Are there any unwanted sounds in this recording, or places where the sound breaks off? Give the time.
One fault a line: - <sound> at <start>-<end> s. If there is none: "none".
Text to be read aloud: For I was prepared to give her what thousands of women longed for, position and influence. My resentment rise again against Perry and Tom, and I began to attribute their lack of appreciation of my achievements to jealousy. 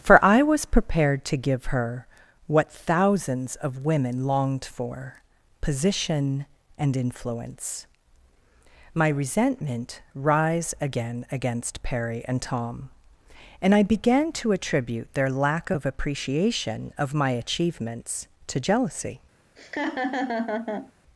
- laugh at 19.6-20.9 s